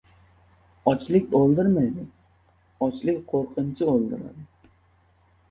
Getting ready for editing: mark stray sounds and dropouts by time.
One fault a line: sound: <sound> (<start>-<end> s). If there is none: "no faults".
no faults